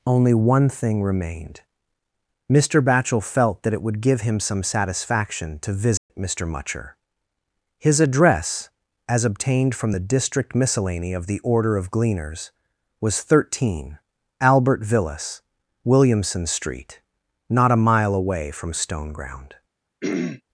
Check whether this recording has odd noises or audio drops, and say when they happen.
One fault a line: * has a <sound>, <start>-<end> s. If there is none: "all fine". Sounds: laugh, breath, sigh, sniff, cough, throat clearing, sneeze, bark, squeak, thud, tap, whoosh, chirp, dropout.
* has a dropout, 6.0-6.1 s
* has a throat clearing, 20.0-20.4 s